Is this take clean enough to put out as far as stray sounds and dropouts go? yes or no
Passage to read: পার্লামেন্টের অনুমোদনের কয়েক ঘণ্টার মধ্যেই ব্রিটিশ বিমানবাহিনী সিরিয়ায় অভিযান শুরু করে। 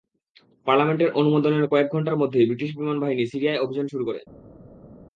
yes